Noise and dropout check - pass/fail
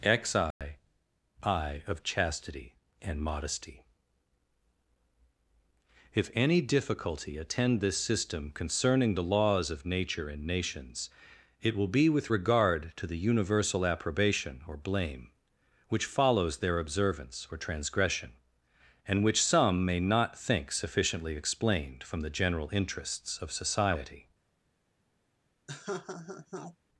fail